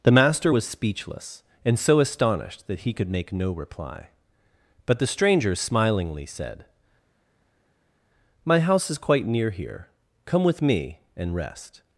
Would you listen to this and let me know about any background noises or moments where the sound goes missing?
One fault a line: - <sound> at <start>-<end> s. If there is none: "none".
none